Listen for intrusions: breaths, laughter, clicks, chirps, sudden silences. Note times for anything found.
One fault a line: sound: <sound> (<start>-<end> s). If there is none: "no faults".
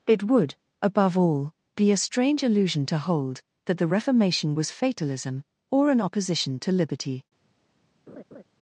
sound: laugh (8.1-8.4 s)